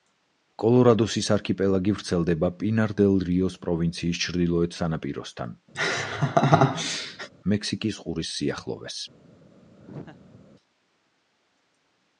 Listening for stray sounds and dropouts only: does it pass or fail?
fail